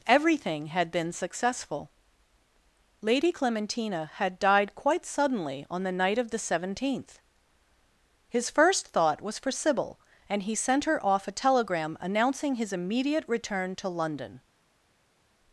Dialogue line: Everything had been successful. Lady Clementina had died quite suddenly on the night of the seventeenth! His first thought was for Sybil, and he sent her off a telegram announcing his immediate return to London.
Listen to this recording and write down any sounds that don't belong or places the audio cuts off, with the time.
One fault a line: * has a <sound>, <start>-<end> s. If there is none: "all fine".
all fine